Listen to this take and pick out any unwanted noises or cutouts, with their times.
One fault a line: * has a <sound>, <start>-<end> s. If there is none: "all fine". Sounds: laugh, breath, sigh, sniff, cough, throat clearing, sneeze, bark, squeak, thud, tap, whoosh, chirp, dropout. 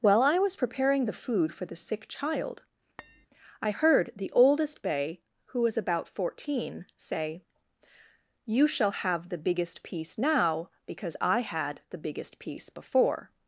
* has a tap, 3.0-3.3 s